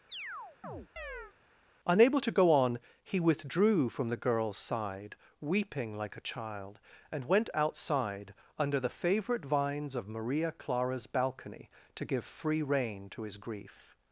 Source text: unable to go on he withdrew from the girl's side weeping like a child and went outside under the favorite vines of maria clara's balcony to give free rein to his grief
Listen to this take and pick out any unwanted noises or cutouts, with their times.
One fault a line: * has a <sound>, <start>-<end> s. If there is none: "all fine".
* has a chirp, 0.1-1.3 s